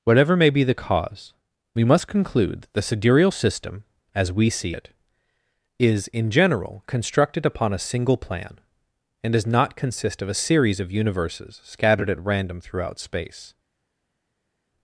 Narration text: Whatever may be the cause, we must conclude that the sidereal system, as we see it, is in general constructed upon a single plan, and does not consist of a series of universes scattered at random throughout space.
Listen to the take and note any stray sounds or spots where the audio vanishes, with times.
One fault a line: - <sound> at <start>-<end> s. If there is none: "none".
none